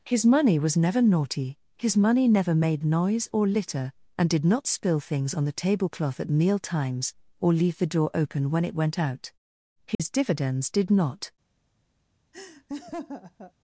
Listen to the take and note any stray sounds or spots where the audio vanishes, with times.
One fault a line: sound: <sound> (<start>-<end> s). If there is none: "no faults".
sound: dropout (9.9-10.0 s)
sound: laugh (12.3-13.5 s)